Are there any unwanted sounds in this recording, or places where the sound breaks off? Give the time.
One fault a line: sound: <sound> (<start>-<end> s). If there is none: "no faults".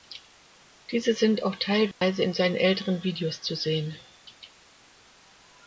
sound: dropout (1.9-2.0 s)